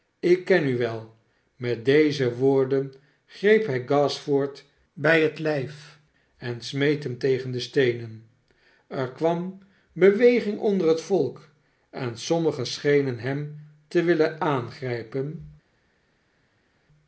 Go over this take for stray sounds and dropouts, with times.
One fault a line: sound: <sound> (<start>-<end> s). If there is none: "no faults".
no faults